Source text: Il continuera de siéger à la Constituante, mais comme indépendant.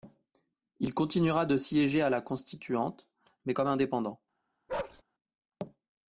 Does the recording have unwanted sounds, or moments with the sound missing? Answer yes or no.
yes